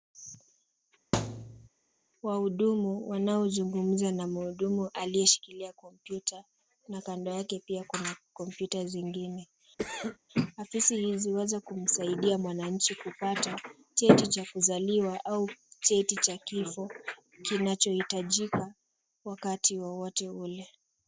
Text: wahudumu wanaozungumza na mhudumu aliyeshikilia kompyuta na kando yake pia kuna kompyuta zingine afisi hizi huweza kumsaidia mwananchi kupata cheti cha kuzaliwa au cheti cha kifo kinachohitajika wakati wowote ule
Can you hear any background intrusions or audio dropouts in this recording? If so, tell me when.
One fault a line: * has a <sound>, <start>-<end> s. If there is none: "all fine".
* has a thud, 1.1-1.7 s
* has a cough, 9.8-10.2 s